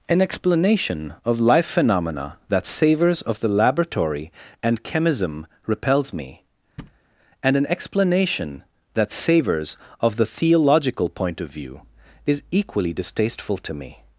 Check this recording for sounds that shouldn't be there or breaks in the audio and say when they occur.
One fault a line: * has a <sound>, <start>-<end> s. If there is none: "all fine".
* has a thud, 6.8-7.0 s